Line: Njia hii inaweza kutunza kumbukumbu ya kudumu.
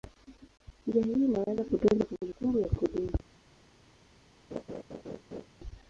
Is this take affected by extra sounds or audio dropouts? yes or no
yes